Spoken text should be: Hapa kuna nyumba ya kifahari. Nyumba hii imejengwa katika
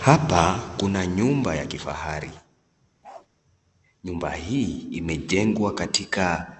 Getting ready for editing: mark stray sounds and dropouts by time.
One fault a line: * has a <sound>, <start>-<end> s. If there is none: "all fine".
* has a bark, 3.0-3.3 s